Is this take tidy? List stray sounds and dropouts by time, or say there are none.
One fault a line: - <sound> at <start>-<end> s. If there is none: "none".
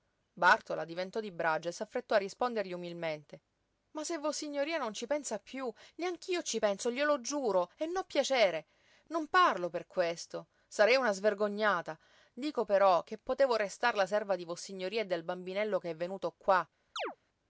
- chirp at 17.0-17.2 s